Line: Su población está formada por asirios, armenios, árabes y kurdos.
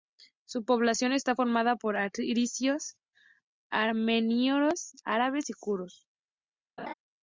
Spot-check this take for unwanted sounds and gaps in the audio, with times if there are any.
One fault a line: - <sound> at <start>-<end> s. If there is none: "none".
- laugh at 6.8-6.9 s